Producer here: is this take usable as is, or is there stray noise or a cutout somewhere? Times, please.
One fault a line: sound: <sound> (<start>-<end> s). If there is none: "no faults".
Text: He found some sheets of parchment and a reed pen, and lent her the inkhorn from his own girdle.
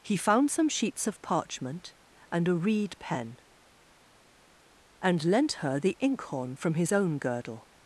no faults